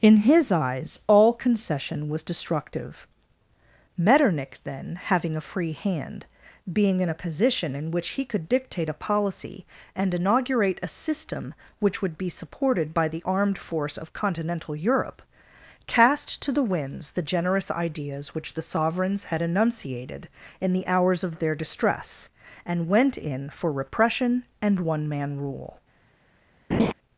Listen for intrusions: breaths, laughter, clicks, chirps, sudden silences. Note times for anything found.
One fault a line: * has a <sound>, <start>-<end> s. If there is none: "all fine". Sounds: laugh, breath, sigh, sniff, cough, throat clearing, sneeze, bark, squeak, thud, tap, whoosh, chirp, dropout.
* has a laugh, 26.7-26.9 s